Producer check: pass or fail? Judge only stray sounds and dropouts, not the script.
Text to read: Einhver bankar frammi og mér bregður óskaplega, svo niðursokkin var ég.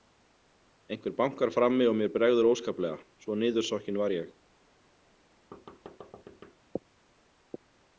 fail